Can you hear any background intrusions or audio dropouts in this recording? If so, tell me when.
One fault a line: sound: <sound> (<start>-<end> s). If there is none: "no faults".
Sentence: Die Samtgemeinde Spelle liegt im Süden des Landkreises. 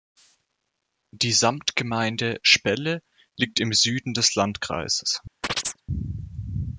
sound: chirp (5.4-5.8 s)